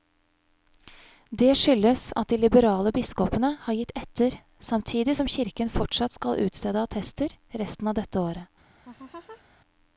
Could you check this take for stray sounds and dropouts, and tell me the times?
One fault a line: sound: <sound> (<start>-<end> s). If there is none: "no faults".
sound: laugh (8.8-9.4 s)